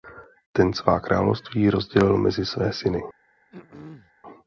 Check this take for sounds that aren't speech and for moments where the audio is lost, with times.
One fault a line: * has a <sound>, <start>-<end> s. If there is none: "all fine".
* has a throat clearing, 3.5-4.1 s